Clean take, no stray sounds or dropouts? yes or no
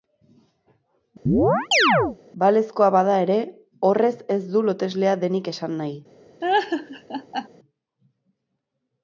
no